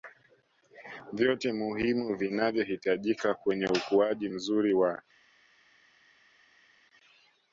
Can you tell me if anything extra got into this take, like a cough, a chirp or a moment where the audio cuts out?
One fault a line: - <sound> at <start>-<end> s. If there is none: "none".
none